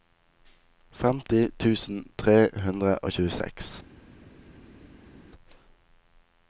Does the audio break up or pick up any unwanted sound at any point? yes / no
no